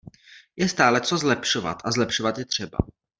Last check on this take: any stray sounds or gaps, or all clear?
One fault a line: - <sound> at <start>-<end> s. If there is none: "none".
none